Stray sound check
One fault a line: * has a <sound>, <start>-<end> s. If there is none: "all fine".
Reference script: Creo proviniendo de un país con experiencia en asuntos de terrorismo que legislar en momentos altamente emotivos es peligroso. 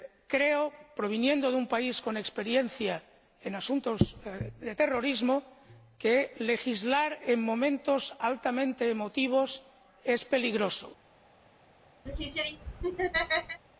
* has a laugh, 12.1-13.6 s